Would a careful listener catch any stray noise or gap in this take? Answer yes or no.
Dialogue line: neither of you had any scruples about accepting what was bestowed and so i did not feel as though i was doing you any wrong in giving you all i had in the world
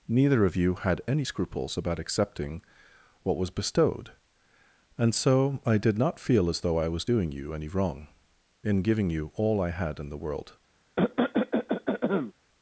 yes